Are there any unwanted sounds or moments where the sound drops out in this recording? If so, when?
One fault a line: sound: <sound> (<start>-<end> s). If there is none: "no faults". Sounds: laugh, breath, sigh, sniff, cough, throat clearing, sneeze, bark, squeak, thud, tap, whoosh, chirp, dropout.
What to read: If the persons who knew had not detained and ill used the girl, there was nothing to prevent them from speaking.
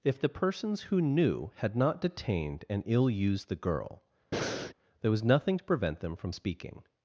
sound: breath (4.3-4.7 s)